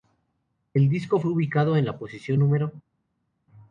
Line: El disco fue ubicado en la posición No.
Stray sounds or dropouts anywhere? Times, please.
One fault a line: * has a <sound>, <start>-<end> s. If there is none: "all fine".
all fine